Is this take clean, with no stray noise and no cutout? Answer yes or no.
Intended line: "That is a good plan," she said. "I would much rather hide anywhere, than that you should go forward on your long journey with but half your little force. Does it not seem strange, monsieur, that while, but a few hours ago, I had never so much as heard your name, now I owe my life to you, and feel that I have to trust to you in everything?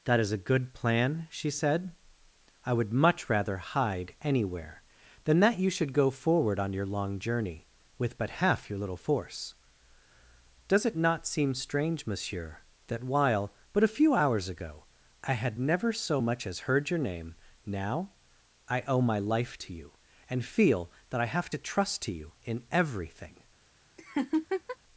no